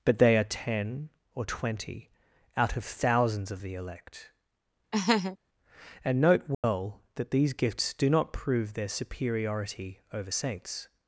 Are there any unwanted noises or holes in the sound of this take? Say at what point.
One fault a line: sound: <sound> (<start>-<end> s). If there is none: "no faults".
sound: laugh (4.9-5.4 s)
sound: dropout (6.5-6.6 s)